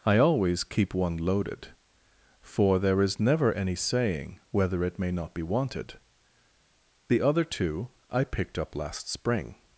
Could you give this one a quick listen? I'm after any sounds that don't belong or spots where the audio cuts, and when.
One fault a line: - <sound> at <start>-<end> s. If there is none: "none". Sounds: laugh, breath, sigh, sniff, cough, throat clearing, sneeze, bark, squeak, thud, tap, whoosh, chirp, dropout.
none